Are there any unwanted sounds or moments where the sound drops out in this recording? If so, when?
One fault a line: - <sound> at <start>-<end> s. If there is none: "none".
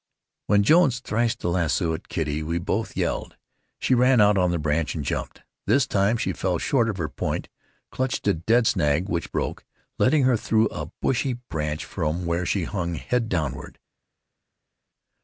none